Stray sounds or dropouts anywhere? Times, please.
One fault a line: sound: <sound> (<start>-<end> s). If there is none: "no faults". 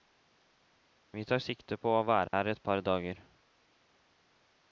sound: dropout (2.3-2.3 s)